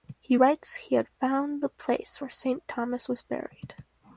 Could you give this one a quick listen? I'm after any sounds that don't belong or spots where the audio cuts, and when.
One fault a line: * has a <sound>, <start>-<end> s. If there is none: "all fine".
all fine